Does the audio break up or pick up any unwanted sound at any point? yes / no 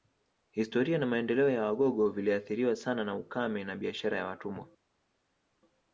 no